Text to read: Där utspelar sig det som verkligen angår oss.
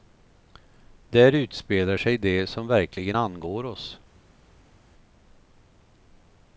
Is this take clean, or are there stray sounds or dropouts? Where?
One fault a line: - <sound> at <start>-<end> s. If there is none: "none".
none